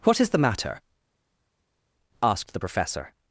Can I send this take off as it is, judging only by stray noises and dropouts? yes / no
yes